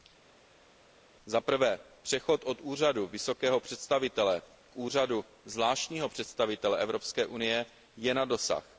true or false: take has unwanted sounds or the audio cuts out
false